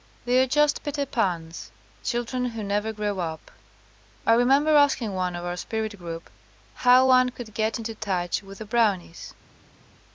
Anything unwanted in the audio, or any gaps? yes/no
no